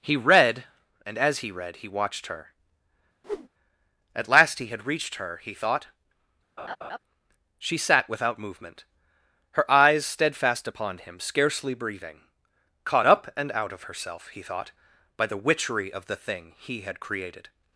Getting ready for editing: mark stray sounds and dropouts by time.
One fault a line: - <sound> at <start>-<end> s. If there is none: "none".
- whoosh at 3.2-3.5 s
- laugh at 6.6-7.0 s